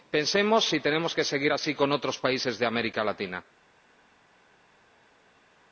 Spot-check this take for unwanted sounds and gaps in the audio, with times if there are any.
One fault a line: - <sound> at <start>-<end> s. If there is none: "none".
none